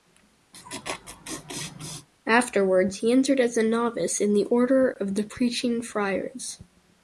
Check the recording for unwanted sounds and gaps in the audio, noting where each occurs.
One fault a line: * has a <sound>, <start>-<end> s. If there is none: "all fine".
* has a laugh, 0.5-2.1 s